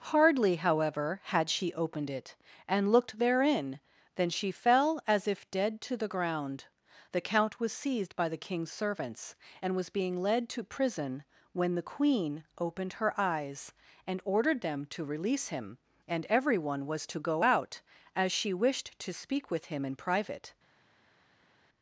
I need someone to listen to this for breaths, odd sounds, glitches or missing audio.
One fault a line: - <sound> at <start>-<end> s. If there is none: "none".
none